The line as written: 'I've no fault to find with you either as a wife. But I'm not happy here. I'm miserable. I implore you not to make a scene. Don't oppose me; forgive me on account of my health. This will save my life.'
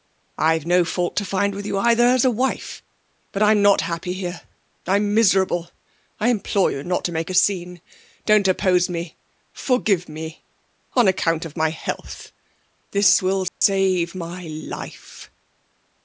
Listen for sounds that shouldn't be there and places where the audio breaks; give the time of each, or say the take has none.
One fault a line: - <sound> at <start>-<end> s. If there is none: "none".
- dropout at 13.5-13.6 s